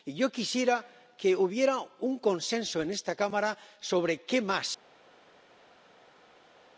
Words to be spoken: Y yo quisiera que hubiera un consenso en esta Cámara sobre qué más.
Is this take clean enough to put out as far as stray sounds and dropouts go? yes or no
yes